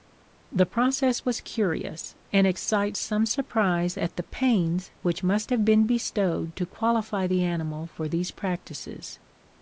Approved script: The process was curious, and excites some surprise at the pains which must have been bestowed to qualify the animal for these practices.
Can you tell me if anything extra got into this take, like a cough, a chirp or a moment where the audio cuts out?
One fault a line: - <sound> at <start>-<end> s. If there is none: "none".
none